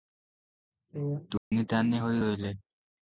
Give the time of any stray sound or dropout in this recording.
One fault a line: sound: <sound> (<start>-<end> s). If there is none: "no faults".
sound: dropout (1.4-1.5 s)